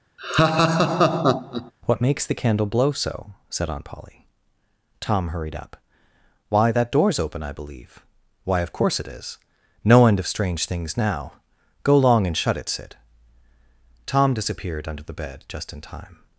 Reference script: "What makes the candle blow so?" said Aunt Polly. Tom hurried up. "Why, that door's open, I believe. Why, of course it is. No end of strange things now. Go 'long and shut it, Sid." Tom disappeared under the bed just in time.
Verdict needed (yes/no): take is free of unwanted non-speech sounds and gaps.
no